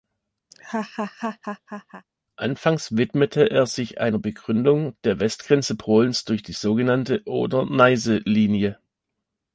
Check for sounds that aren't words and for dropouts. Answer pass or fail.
fail